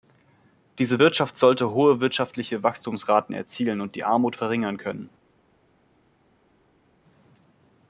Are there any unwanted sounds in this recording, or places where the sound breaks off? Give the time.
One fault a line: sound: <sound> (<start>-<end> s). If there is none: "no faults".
no faults